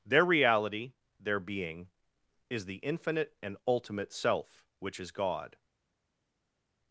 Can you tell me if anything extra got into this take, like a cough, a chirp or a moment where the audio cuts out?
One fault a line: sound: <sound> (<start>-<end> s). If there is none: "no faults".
no faults